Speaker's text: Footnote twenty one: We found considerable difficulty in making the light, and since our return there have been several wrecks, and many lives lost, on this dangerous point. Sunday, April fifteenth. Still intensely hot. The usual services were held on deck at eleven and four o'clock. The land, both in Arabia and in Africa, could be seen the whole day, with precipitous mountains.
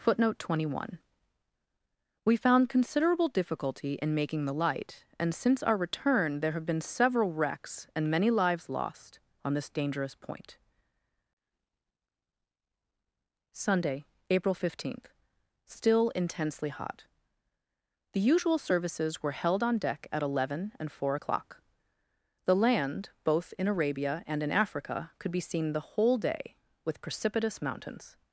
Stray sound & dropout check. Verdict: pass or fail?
pass